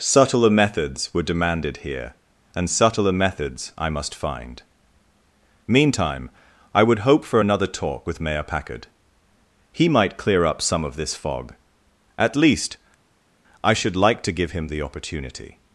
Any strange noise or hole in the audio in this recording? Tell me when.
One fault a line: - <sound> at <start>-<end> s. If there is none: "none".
none